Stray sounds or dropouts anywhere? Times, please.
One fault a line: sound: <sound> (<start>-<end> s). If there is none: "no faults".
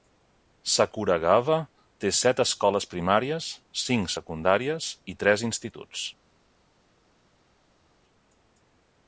no faults